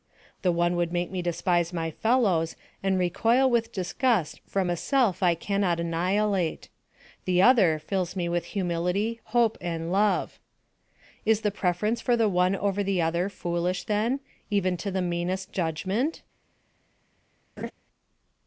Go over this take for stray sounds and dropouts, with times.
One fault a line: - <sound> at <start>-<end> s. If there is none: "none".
- laugh at 17.6-17.7 s